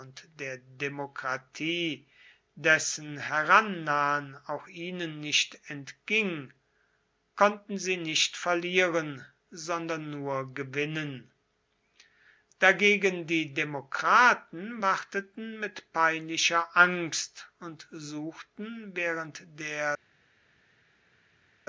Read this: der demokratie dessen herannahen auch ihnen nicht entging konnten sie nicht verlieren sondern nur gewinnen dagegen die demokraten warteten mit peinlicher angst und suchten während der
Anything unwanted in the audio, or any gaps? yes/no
no